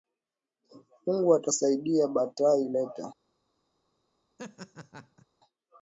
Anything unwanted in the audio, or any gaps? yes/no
yes